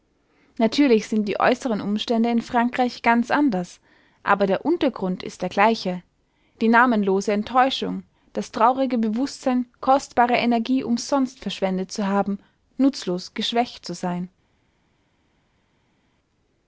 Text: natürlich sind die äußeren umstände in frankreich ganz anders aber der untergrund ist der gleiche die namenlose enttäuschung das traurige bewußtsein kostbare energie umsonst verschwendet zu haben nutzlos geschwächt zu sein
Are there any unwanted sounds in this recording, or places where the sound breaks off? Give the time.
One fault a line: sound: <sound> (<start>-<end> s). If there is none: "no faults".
no faults